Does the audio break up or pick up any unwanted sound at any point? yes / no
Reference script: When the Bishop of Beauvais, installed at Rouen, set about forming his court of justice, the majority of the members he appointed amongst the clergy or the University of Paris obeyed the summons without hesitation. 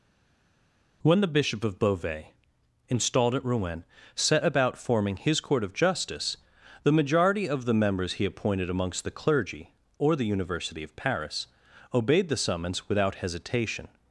no